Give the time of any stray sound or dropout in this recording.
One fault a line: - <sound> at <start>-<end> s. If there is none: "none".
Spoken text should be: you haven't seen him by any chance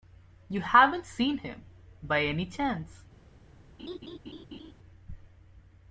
- laugh at 3.8-4.7 s